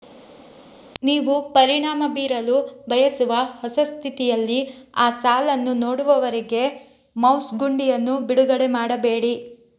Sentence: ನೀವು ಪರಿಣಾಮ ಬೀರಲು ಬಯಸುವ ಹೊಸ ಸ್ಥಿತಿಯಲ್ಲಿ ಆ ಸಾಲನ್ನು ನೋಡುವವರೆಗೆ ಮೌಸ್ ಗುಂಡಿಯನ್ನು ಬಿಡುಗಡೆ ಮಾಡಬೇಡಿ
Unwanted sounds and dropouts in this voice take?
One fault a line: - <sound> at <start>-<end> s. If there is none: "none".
none